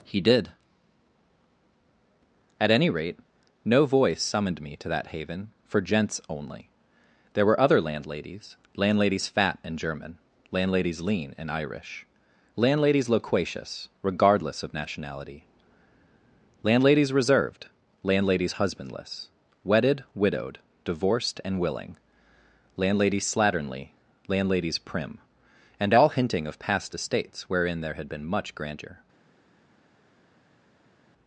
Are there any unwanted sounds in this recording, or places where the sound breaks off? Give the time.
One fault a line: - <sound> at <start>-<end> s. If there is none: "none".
none